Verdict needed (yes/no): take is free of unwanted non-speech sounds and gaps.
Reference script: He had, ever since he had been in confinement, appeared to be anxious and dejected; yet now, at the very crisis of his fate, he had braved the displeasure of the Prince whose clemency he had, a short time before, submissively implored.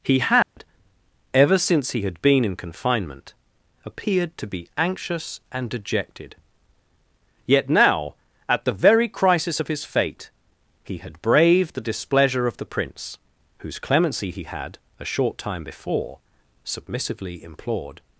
no